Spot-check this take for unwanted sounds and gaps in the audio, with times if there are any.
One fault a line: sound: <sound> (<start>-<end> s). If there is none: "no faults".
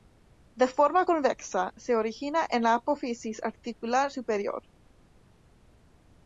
no faults